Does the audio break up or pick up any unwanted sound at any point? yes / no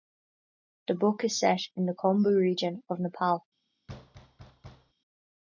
yes